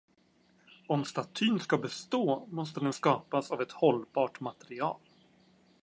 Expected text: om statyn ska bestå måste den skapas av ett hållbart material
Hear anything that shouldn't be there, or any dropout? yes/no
no